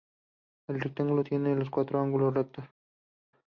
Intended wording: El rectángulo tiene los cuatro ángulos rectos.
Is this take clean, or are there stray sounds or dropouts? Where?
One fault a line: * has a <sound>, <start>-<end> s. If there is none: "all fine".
all fine